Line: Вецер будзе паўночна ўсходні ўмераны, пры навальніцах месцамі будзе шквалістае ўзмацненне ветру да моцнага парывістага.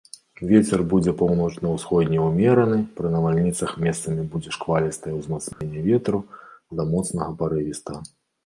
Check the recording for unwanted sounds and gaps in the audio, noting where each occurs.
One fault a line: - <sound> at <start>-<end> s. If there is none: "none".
- dropout at 5.5-5.6 s